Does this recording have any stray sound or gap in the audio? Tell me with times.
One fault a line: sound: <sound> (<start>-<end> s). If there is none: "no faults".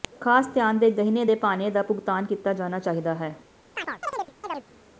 sound: chirp (3.7-4.7 s)